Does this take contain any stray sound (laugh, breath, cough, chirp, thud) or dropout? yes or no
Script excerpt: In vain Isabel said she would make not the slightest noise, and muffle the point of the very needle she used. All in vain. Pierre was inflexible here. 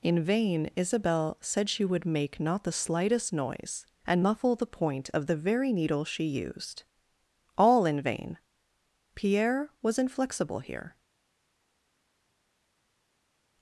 no